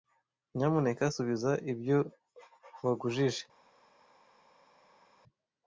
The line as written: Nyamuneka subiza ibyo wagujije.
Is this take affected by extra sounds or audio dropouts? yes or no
no